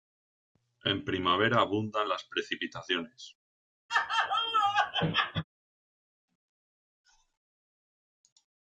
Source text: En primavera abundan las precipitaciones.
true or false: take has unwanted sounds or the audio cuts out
true